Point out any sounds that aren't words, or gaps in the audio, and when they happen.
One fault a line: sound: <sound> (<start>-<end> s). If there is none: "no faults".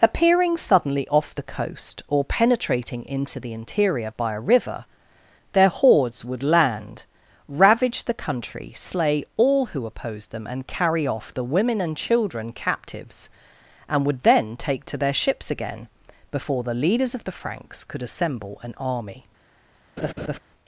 sound: laugh (20.0-20.4 s)